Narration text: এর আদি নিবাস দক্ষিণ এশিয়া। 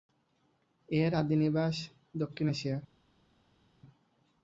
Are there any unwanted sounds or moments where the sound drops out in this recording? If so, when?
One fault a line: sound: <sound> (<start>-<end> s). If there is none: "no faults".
no faults